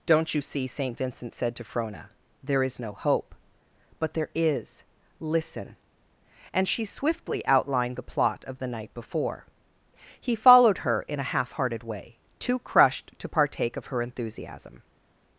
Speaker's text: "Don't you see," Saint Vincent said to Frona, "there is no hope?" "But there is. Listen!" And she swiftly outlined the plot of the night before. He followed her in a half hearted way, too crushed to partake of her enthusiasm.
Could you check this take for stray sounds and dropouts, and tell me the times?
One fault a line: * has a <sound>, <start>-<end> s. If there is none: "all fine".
all fine